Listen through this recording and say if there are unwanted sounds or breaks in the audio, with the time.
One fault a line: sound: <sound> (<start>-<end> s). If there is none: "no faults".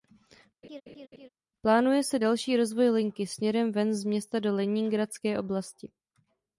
sound: laugh (0.6-1.3 s)